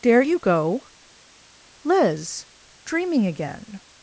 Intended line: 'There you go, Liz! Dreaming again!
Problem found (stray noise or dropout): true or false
false